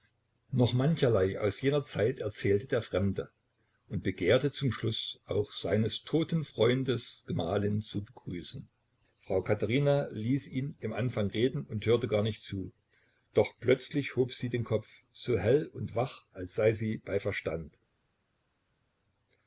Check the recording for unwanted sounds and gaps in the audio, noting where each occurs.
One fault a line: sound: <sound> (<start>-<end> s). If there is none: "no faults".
no faults